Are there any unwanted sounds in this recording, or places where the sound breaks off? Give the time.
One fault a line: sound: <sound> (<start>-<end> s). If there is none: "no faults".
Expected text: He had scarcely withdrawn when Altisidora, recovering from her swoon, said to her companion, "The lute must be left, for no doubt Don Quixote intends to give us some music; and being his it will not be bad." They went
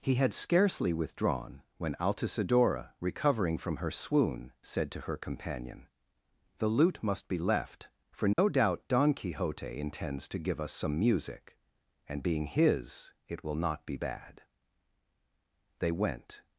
sound: dropout (8.3-8.4 s)